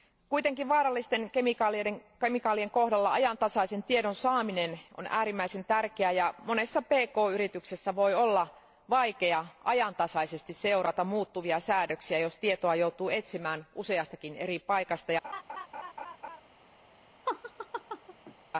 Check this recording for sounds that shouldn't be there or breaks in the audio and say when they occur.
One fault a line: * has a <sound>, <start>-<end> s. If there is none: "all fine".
* has a laugh, 15.2-16.4 s
* has a laugh, 17.3-18.4 s